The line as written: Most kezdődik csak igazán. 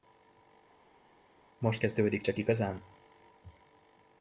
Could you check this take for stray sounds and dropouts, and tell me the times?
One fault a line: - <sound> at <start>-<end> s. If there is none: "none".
none